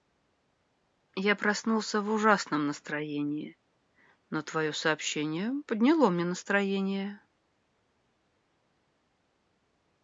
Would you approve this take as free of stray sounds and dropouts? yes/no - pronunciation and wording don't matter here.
yes